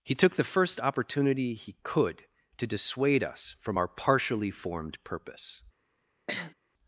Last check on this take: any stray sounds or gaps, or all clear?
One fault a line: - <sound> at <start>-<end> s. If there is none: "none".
- sniff at 6.3-6.5 s